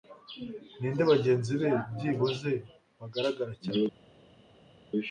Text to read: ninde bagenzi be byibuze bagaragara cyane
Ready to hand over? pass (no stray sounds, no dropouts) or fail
pass